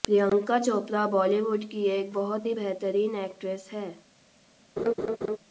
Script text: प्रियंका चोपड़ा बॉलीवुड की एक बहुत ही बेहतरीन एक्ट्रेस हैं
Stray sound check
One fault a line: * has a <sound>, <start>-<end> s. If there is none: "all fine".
* has a laugh, 4.8-5.4 s